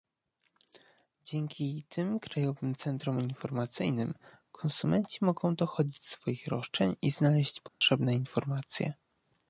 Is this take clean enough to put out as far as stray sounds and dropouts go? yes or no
no